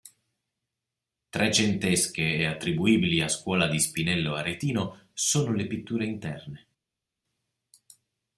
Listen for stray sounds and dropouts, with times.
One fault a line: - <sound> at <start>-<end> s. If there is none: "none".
none